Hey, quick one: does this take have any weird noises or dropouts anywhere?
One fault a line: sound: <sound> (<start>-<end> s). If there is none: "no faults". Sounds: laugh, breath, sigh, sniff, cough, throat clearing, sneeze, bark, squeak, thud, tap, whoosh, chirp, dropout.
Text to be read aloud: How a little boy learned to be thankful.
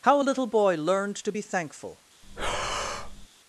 sound: breath (2.2-3.3 s)